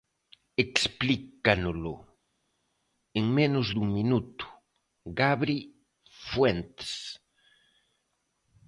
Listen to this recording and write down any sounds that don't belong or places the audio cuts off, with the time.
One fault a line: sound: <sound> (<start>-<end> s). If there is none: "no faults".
no faults